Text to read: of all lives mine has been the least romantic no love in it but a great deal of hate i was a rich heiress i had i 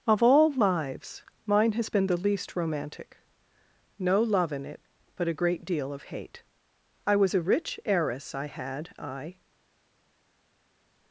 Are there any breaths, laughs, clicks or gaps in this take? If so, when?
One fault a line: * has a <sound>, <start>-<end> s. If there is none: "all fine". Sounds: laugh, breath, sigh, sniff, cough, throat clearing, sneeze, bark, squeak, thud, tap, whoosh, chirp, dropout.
all fine